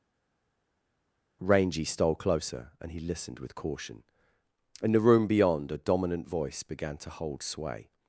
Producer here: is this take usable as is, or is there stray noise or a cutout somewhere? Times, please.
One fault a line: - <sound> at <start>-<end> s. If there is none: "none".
none